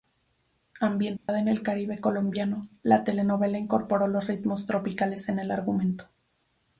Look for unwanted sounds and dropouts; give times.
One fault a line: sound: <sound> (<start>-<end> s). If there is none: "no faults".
sound: dropout (1.2-1.3 s)